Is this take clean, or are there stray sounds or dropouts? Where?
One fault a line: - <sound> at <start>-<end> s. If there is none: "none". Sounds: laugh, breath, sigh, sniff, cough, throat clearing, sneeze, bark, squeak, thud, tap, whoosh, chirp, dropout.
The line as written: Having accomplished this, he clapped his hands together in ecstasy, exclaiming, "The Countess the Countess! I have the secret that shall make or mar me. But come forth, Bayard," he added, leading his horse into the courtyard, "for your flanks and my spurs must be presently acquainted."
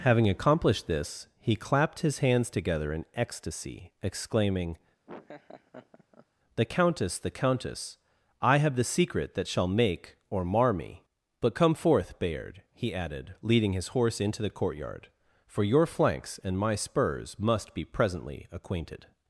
- laugh at 5.1-6.3 s